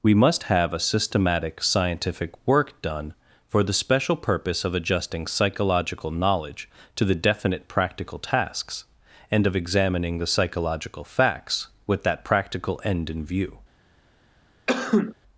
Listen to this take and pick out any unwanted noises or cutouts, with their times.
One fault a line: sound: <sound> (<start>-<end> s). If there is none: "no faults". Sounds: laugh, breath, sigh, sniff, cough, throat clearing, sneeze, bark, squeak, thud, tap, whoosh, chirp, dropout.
sound: sneeze (14.7-15.1 s)